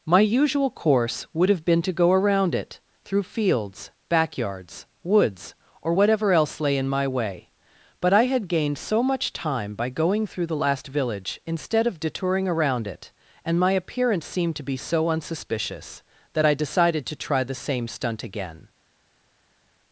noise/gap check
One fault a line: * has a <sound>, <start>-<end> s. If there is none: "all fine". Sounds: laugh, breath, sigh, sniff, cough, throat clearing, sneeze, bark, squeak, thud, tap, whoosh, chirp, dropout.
all fine